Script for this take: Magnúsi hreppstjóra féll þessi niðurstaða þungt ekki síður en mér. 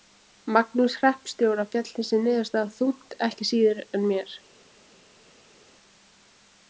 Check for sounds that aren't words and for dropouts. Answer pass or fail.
pass